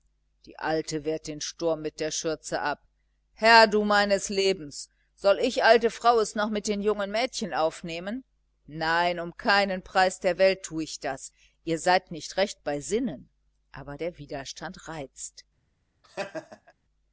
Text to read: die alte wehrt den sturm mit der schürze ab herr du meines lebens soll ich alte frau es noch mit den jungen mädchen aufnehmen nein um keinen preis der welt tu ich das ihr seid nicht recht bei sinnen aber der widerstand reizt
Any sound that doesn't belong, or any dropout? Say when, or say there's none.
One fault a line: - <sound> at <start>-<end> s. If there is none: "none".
- laugh at 16.0-16.7 s